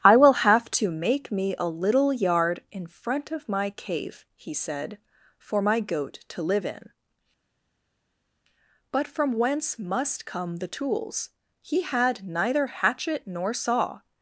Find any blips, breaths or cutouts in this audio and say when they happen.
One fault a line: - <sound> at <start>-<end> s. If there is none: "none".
none